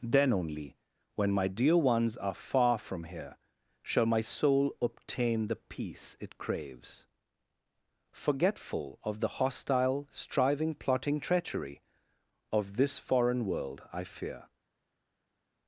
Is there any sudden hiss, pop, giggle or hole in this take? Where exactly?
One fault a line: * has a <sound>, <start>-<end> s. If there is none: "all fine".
all fine